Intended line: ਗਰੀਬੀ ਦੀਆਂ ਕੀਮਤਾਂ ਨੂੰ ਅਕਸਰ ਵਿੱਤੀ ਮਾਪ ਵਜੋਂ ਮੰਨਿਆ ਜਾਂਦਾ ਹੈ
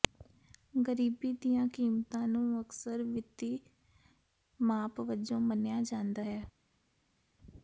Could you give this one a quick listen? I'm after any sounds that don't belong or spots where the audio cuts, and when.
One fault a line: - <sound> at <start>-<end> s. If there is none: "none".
none